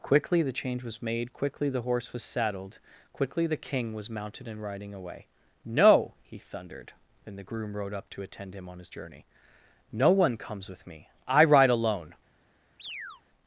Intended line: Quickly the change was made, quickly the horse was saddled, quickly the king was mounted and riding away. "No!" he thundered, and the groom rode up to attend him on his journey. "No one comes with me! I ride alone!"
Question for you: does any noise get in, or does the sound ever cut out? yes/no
yes